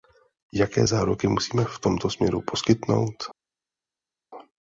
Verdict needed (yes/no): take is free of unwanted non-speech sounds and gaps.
yes